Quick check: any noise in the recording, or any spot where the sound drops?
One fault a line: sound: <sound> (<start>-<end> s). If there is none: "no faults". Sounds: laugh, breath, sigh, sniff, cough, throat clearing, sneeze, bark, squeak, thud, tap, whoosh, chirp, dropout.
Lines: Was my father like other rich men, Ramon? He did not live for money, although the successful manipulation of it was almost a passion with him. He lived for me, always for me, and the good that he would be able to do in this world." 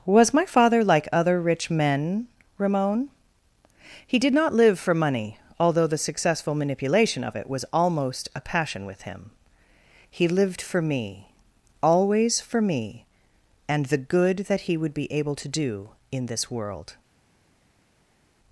no faults